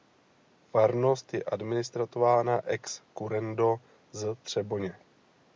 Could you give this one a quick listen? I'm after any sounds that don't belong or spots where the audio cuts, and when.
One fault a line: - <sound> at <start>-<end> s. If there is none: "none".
none